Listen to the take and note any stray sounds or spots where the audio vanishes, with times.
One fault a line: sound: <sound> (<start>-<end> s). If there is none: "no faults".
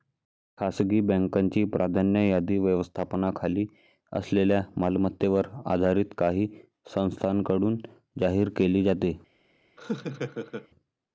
sound: laugh (9.8-10.7 s)